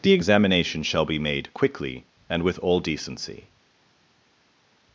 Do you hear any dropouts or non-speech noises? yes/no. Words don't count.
no